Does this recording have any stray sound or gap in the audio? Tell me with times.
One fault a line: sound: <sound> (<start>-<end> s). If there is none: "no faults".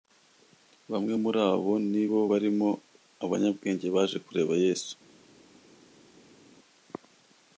no faults